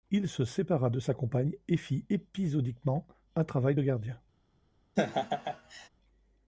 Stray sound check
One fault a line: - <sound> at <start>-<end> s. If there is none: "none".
- laugh at 5.0-5.9 s